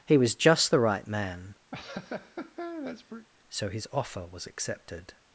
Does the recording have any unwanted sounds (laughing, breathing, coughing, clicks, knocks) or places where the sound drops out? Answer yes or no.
yes